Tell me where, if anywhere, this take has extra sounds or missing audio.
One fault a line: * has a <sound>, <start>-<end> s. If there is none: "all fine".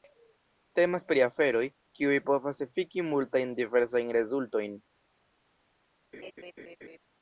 * has a laugh, 6.1-7.0 s